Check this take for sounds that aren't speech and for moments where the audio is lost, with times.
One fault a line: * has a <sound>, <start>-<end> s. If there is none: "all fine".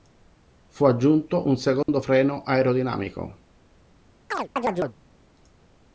* has a dropout, 1.8-1.9 s
* has a chirp, 4.3-5.0 s